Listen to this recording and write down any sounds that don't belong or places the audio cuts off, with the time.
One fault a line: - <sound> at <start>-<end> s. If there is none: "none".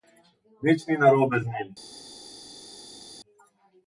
none